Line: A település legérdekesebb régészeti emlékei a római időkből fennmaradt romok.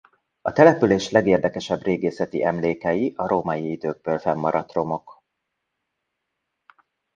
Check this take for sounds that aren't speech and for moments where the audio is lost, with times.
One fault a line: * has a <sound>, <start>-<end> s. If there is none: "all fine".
all fine